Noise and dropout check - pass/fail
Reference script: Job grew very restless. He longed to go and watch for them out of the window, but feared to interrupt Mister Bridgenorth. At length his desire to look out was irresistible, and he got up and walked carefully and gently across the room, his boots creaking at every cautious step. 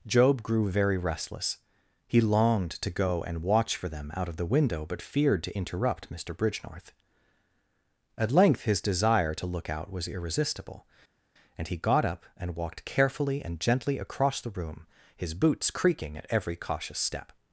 pass